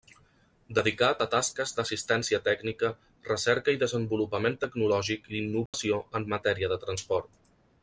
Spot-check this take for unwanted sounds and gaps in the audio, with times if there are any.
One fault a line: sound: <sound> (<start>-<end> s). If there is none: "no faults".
sound: dropout (5.7-5.7 s)